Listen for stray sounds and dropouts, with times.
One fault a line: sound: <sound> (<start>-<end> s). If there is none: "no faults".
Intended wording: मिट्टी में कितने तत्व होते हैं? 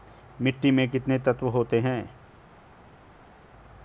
no faults